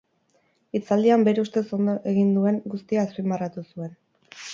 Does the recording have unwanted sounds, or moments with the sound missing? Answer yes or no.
no